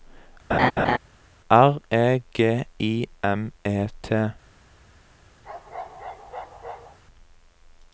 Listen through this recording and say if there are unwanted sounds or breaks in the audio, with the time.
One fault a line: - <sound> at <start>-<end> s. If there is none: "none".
- laugh at 0.5-1.0 s
- bark at 5.4-7.0 s